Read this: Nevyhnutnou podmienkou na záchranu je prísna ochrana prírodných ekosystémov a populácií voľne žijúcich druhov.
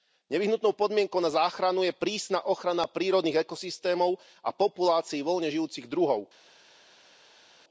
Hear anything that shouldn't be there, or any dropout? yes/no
no